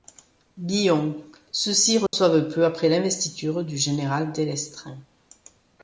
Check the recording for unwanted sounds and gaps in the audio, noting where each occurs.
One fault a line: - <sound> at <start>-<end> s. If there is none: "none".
- dropout at 2.1-2.1 s